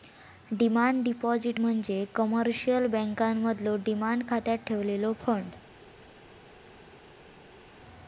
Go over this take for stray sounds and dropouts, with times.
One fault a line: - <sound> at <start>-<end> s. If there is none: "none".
none